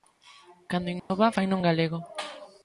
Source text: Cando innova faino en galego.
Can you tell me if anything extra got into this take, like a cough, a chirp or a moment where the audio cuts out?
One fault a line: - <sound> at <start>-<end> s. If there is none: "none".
- dropout at 1.0-1.1 s